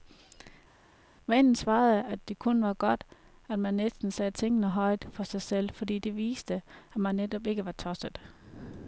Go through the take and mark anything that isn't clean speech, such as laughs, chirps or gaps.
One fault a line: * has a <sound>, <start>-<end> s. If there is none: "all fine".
all fine